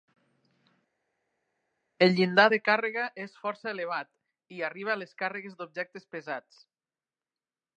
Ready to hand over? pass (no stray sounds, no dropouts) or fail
pass